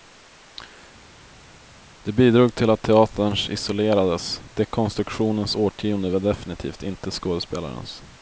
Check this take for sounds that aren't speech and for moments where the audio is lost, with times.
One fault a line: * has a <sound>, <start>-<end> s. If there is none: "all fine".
all fine